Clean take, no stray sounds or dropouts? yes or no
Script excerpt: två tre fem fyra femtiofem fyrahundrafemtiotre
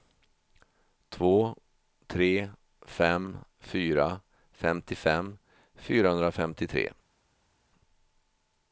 yes